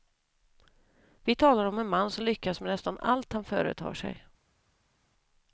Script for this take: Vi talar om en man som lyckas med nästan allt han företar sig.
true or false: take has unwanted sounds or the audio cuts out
false